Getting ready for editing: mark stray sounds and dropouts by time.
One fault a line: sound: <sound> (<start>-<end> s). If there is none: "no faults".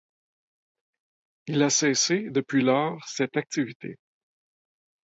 no faults